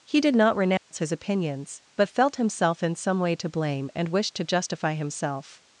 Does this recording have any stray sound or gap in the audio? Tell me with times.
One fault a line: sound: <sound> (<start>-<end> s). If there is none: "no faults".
sound: dropout (0.8-0.9 s)